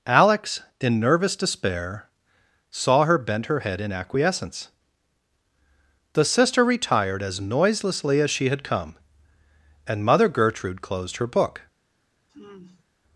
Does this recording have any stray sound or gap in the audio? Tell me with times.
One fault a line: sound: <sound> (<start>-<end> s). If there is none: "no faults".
sound: sigh (12.3-12.9 s)